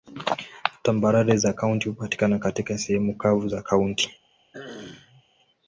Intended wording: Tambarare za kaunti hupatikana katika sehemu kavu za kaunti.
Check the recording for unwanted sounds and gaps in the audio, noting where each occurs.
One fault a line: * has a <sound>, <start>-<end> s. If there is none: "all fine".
* has a throat clearing, 4.5-5.2 s